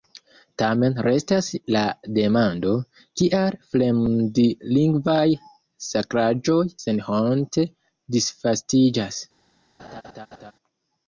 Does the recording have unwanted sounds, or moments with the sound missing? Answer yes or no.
yes